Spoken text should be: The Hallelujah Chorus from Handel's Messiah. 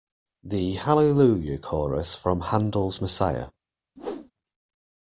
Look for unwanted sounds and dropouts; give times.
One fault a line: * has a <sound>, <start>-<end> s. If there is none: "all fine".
* has a whoosh, 4.0-4.3 s